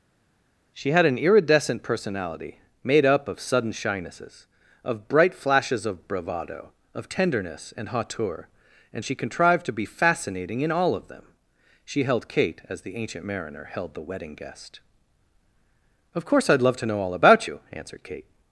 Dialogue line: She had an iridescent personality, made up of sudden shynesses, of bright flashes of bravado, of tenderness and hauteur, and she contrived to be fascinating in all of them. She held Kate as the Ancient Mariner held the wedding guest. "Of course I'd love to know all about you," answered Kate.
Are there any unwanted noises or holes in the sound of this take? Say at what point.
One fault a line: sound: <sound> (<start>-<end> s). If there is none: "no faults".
no faults